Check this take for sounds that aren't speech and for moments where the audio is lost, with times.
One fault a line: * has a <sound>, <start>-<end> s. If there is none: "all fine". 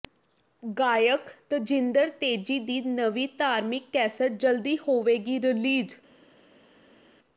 all fine